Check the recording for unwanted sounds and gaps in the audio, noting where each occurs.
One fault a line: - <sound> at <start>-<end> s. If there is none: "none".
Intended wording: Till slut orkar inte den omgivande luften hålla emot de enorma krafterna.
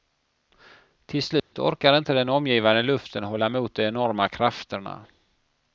- dropout at 1.4-1.5 s